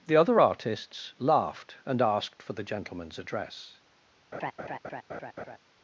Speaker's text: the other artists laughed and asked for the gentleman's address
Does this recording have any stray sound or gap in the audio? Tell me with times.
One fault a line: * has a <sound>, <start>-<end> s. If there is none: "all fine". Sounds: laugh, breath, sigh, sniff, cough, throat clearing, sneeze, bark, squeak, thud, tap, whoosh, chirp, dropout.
* has a laugh, 4.3-5.6 s